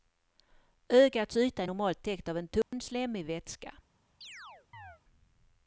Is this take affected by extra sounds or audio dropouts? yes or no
yes